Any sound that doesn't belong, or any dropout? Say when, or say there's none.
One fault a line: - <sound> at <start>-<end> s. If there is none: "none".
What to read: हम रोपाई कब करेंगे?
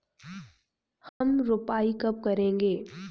- dropout at 1.1-1.2 s